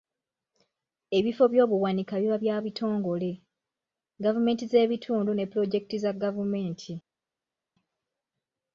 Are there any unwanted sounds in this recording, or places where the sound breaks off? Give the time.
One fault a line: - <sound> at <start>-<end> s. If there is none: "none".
none